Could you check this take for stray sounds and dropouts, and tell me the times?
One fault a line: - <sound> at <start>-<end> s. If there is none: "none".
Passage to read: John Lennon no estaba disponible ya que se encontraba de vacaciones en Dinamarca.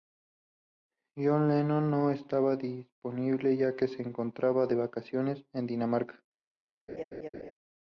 - laugh at 6.9-7.5 s